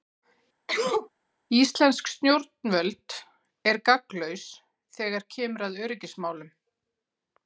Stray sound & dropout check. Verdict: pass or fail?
fail